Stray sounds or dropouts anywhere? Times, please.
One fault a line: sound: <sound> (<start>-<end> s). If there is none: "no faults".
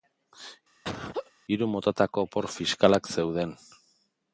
sound: laugh (0.8-1.3 s)